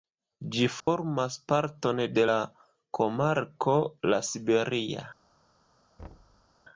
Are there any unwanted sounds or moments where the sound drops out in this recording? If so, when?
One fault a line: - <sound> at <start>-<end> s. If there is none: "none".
- dropout at 0.8-0.9 s
- thud at 6.0-6.5 s